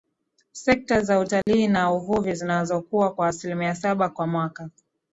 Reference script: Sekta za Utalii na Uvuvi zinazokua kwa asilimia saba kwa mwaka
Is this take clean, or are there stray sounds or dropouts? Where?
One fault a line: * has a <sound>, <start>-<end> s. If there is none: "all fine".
* has a dropout, 1.4-1.5 s